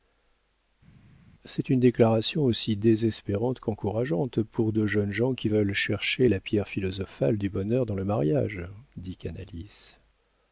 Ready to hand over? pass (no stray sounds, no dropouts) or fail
pass